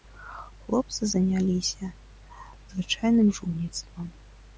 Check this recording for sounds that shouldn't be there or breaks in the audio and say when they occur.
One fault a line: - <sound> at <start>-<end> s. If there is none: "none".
none